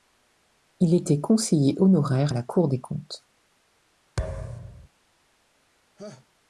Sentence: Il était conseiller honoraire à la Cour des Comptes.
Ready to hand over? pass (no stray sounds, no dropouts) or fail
fail